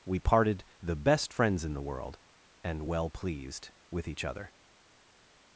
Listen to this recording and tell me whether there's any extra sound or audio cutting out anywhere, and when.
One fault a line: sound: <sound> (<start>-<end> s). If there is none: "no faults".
no faults